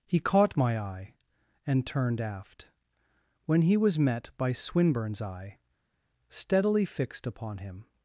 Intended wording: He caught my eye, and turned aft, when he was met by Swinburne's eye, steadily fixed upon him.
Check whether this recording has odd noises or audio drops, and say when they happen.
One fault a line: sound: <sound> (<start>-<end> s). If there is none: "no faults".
no faults